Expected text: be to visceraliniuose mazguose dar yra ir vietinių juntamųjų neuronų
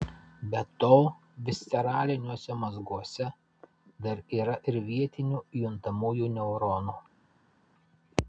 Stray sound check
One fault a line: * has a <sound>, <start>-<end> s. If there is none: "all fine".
all fine